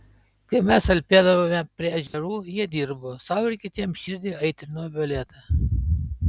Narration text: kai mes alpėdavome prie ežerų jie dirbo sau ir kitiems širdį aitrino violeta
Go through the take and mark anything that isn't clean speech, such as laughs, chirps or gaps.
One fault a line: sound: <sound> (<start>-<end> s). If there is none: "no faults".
sound: dropout (2.1-2.1 s)